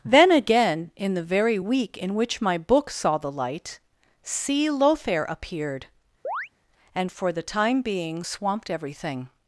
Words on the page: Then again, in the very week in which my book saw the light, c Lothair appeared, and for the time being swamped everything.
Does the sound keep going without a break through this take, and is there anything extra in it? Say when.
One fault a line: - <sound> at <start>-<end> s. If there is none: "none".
- chirp at 6.2-6.5 s